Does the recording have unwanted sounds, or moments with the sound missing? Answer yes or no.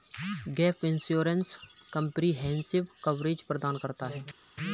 no